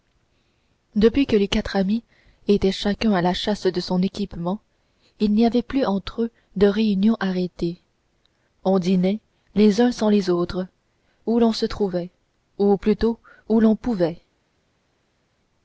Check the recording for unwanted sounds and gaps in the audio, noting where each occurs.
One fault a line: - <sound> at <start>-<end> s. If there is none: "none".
none